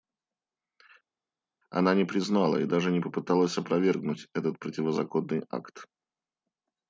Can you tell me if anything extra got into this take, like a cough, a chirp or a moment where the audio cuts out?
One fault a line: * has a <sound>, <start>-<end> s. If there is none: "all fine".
all fine